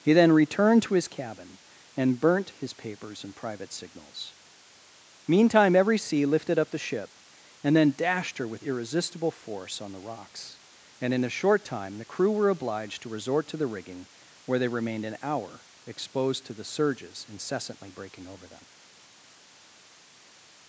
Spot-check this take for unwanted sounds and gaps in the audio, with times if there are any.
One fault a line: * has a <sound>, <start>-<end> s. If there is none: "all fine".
all fine